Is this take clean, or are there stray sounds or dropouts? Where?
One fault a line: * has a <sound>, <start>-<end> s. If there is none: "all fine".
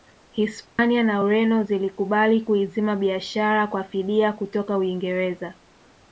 * has a dropout, 0.7-0.8 s